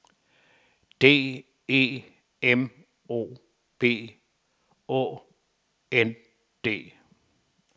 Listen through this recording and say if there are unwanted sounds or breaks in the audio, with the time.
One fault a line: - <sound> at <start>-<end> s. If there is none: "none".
none